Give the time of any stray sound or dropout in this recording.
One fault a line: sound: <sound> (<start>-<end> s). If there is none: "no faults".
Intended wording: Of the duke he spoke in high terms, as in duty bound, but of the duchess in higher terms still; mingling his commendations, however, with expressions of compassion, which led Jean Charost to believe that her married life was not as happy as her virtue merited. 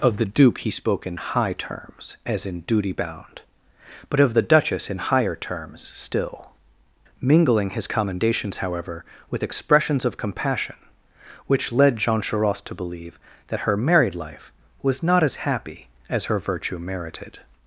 no faults